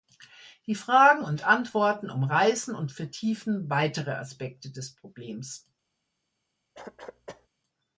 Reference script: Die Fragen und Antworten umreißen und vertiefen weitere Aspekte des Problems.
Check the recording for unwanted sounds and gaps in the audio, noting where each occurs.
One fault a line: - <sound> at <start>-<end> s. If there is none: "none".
- cough at 6.7-7.5 s